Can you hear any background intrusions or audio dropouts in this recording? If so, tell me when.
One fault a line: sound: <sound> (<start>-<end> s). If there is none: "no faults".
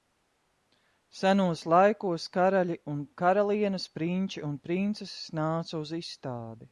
no faults